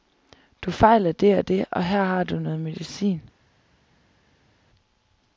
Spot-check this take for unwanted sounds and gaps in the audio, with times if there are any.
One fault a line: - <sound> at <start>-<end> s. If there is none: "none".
none